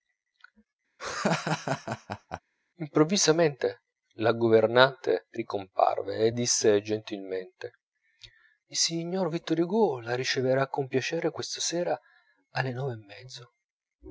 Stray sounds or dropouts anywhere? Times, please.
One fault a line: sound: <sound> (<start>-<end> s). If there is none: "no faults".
sound: laugh (1.0-2.4 s)